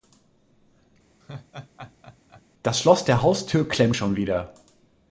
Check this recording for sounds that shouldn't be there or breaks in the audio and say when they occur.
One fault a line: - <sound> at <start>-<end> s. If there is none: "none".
- laugh at 1.2-2.4 s